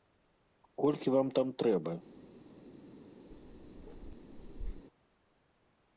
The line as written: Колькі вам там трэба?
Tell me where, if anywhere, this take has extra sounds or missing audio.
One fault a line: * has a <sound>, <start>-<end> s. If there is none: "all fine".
* has a bark, 3.3-4.9 s